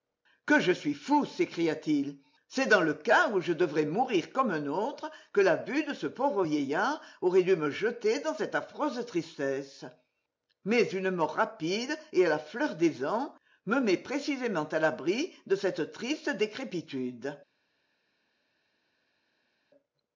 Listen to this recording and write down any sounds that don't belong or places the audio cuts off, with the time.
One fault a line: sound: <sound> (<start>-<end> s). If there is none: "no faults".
no faults